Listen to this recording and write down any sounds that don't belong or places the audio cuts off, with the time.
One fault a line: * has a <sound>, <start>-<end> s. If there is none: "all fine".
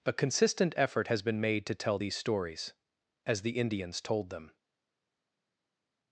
all fine